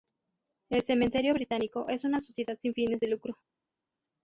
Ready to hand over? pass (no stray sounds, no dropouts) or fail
pass